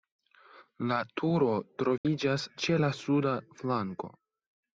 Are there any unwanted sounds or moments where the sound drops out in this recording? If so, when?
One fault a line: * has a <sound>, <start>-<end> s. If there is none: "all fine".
* has a dropout, 2.0-2.0 s